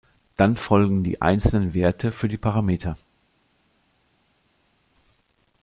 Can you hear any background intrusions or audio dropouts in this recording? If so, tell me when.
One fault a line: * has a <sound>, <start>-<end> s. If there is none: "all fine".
all fine